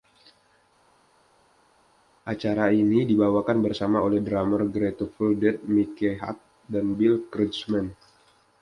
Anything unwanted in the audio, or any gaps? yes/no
no